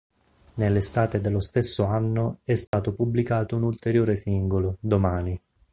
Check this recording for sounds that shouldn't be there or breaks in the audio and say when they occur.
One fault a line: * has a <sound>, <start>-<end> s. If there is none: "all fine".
* has a dropout, 2.7-2.7 s